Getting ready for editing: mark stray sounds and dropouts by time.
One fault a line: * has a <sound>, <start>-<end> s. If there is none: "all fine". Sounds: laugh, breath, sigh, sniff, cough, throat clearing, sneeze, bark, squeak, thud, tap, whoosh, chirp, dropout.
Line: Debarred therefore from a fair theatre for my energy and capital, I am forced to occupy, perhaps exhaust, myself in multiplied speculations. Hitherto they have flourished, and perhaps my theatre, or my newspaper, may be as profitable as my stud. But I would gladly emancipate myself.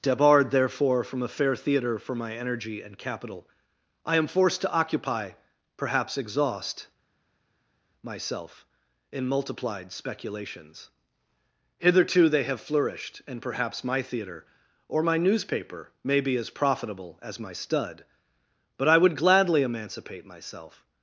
all fine